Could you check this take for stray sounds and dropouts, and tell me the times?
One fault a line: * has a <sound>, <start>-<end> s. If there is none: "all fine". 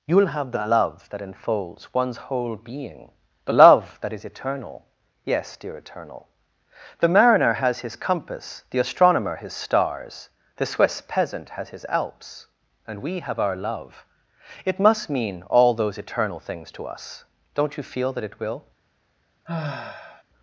* has a sigh, 19.5-20.2 s